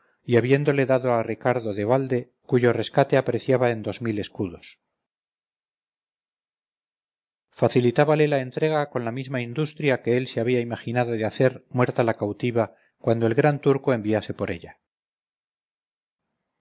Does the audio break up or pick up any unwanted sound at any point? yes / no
no